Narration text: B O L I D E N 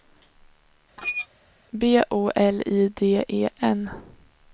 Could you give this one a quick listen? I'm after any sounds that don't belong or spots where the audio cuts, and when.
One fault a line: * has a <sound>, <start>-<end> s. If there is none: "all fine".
* has a squeak, 1.0-1.3 s